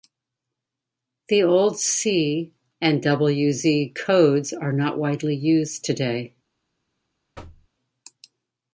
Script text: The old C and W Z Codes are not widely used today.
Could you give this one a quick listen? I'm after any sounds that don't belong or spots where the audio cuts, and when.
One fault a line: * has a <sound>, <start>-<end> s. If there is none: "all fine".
* has a thud, 7.3-7.7 s